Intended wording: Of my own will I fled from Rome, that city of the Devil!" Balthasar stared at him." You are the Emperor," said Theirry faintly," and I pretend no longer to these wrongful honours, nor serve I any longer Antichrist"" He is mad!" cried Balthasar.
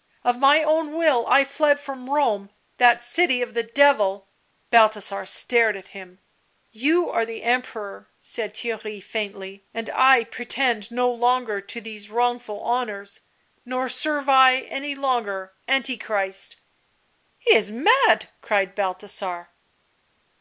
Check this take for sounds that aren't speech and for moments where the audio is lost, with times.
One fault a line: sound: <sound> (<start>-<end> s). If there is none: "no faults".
no faults